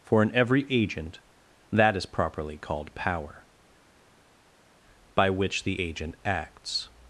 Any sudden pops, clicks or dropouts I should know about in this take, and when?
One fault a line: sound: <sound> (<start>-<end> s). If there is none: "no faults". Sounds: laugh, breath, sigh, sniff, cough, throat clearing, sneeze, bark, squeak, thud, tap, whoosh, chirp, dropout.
no faults